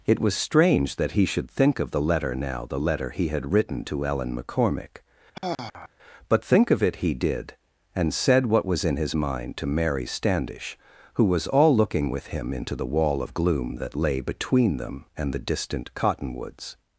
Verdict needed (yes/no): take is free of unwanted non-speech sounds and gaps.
no